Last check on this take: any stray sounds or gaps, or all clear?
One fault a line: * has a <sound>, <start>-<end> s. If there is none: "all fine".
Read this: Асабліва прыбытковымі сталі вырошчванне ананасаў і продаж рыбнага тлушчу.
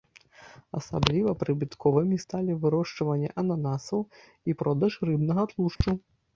* has a dropout, 5.8-5.8 s